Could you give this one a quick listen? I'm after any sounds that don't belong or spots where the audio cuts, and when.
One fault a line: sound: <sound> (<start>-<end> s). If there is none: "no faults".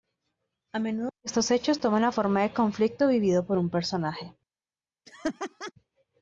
sound: laugh (5.1-5.7 s)